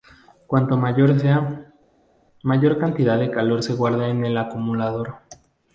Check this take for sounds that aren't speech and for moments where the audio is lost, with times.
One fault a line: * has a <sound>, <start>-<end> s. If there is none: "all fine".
all fine